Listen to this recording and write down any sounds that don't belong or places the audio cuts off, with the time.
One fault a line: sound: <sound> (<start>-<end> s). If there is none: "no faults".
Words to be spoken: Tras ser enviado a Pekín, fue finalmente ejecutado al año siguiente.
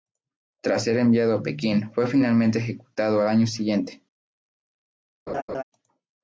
sound: laugh (5.3-5.6 s)